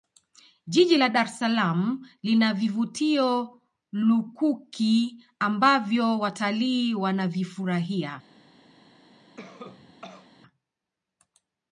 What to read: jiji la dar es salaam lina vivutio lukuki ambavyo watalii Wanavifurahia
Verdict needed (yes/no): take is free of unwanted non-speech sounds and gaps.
no